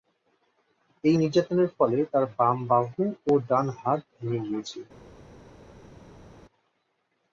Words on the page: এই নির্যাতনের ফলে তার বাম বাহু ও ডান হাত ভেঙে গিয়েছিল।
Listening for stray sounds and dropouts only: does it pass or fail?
pass